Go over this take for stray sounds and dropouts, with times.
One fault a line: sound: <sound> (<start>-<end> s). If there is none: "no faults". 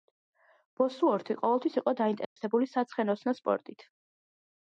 sound: dropout (2.2-2.4 s)